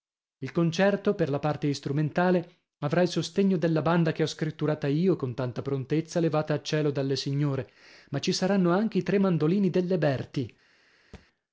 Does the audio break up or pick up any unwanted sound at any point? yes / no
yes